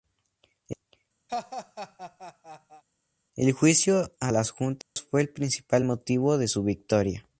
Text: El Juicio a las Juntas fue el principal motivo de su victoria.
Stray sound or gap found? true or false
true